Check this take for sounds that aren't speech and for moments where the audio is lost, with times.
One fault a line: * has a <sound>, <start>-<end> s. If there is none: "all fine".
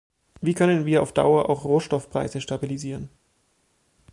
all fine